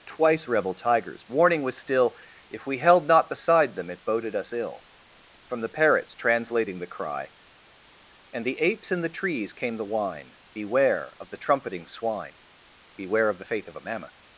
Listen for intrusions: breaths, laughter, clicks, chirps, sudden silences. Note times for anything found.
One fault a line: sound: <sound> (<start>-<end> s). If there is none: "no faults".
no faults